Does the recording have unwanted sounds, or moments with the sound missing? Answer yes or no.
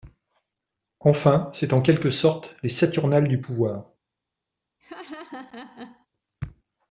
yes